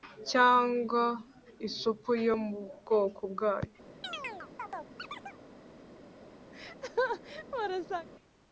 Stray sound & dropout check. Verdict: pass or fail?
fail